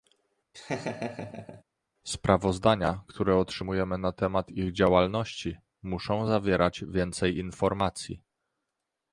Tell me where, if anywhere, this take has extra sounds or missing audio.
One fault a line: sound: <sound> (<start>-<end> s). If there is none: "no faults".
sound: laugh (0.5-1.6 s)